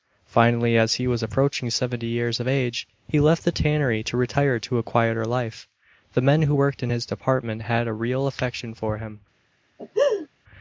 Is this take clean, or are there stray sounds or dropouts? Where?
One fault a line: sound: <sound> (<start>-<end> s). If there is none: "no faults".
sound: laugh (9.8-10.3 s)